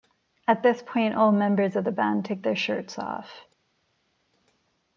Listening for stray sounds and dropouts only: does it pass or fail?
pass